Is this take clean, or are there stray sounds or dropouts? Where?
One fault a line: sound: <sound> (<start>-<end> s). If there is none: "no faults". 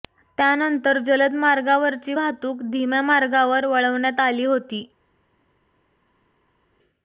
no faults